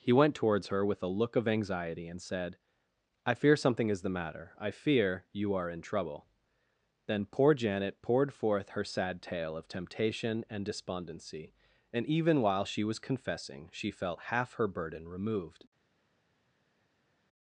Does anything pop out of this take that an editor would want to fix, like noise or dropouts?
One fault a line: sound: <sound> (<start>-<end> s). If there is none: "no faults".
no faults